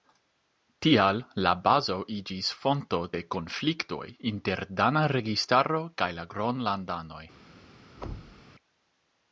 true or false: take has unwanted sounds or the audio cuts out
true